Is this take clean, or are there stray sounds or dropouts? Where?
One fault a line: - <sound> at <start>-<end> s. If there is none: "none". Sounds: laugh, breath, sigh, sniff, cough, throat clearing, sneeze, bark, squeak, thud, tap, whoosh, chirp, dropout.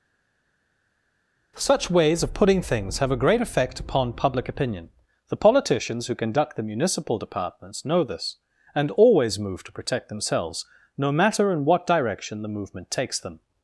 none